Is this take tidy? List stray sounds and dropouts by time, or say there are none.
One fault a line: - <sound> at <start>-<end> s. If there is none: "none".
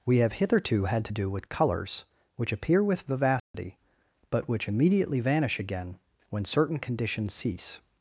- dropout at 3.4-3.5 s